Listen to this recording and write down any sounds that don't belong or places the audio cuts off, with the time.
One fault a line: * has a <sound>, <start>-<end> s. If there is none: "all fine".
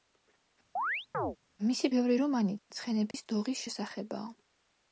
* has a chirp, 0.8-1.4 s
* has a dropout, 3.1-3.1 s